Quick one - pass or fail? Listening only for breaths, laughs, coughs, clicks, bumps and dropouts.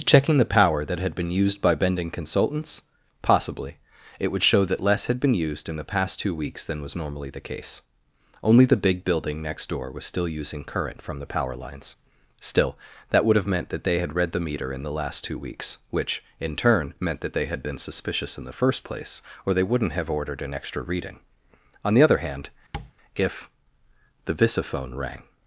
fail